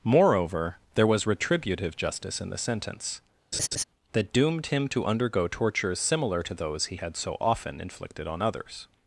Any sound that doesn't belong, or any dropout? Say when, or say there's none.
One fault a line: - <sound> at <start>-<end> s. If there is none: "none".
- laugh at 3.5-3.8 s